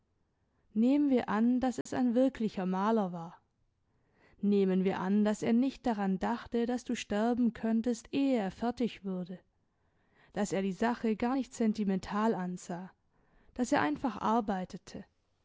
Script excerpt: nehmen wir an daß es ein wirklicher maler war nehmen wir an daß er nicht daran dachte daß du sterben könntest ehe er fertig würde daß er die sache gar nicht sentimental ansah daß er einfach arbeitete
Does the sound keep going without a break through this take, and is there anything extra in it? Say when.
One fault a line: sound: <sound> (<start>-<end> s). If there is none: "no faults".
sound: dropout (1.8-1.9 s)